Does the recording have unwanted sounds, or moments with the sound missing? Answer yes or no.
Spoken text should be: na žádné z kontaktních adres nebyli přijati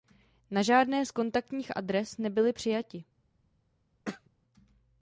yes